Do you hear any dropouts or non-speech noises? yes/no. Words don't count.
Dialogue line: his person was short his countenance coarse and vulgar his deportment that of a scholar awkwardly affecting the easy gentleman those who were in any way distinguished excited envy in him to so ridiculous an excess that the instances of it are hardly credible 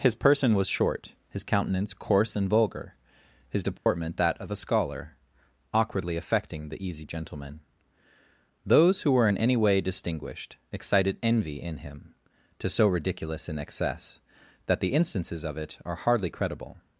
yes